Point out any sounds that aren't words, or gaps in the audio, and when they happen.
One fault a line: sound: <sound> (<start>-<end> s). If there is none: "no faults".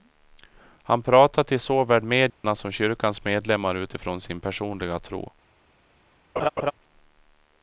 sound: dropout (2.3-2.4 s)
sound: laugh (6.4-6.7 s)